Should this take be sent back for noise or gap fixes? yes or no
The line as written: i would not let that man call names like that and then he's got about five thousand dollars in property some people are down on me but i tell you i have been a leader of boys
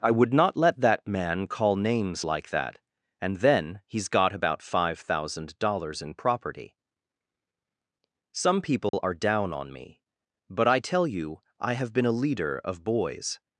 yes